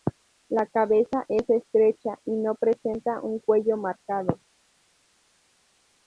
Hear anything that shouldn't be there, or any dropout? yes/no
no